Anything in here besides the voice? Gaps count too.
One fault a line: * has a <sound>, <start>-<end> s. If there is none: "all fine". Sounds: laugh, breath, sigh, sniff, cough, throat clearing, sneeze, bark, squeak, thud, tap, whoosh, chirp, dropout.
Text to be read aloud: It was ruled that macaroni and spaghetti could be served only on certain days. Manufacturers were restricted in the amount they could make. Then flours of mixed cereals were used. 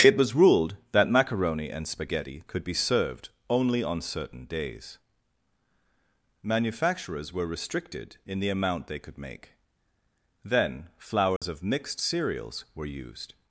* has a dropout, 11.4-11.4 s